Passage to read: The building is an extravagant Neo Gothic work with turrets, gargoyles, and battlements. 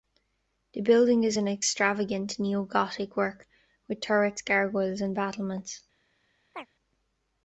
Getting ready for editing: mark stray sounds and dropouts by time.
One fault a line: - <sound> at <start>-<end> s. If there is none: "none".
- chirp at 6.5-6.7 s